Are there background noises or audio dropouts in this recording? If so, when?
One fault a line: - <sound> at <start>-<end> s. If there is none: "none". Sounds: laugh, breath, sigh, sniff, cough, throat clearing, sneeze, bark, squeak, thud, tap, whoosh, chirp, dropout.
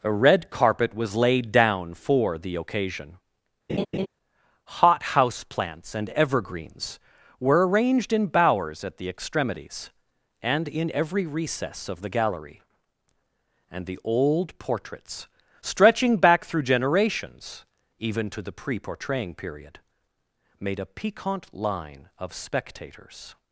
- laugh at 3.7-4.1 s